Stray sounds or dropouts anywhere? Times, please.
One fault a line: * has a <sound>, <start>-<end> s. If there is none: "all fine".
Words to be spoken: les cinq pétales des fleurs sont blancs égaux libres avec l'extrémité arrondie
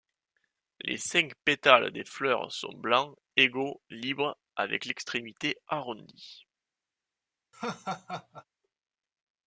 * has a laugh, 7.5-8.4 s